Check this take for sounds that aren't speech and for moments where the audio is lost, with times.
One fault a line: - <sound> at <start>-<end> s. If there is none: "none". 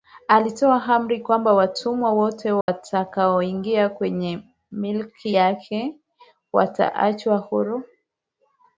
- dropout at 2.6-2.7 s